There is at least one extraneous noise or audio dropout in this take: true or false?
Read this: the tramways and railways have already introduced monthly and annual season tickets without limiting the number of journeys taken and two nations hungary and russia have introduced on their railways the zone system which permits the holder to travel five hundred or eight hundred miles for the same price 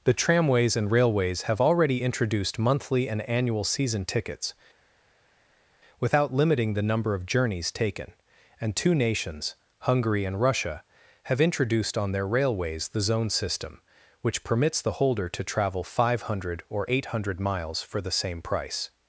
false